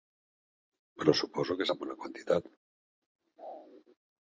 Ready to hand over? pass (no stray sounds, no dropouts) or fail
pass